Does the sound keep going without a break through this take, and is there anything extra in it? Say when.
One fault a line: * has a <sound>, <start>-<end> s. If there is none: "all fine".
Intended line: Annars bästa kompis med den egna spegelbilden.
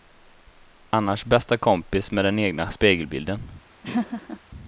* has a laugh, 3.8-4.4 s